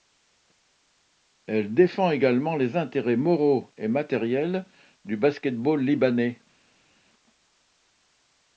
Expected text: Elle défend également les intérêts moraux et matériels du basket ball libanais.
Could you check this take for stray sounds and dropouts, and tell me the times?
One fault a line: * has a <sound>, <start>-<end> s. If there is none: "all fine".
all fine